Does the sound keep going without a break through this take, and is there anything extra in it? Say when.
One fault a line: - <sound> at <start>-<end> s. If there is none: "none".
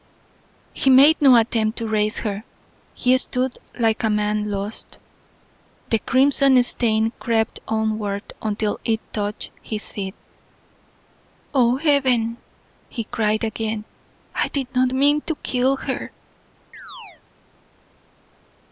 - chirp at 16.7-17.2 s